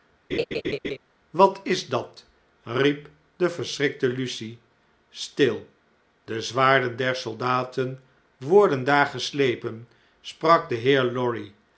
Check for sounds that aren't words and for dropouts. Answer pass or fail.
fail